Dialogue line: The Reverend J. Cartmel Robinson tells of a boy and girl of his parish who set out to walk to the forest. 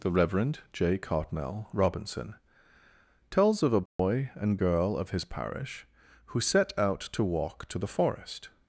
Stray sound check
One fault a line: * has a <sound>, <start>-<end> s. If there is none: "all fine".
* has a dropout, 3.9-4.0 s